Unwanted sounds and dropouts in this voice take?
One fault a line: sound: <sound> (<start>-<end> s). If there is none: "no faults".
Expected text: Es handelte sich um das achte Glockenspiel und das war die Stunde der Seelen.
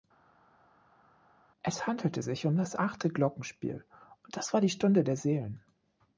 no faults